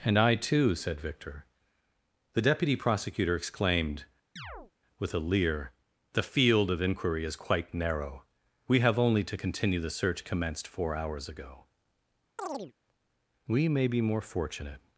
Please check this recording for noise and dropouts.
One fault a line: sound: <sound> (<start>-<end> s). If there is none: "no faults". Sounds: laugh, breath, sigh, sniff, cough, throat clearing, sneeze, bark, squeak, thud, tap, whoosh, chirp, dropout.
sound: chirp (4.4-4.7 s)
sound: chirp (12.4-12.7 s)